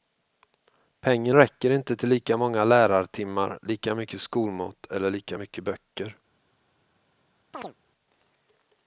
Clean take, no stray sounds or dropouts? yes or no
no